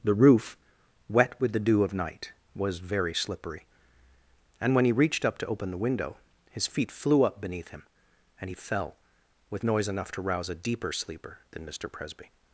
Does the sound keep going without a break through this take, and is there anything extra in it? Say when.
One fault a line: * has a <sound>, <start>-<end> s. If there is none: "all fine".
all fine